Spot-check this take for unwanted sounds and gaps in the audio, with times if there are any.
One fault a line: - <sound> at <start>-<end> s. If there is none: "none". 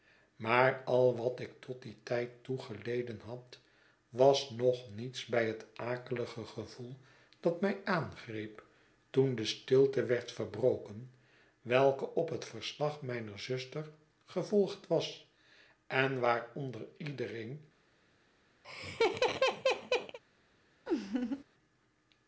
- laugh at 18.6-20.2 s
- laugh at 20.9-21.4 s